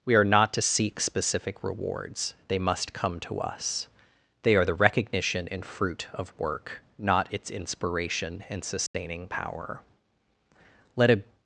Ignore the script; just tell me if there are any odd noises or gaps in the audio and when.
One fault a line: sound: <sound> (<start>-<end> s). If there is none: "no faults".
sound: dropout (8.9-8.9 s)